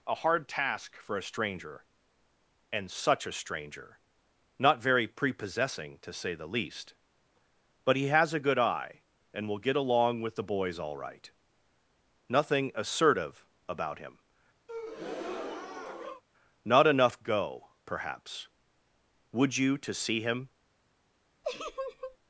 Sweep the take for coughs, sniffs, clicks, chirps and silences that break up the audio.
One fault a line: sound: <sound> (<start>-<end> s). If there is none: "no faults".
sound: breath (14.7-16.2 s)
sound: laugh (21.4-22.2 s)